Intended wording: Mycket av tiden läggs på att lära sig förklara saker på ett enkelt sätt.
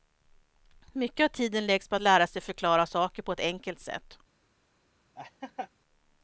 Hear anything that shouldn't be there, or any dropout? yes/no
yes